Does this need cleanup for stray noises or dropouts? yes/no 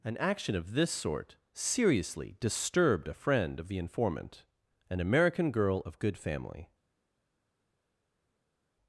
no